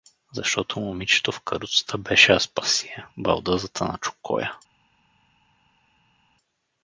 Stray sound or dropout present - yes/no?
no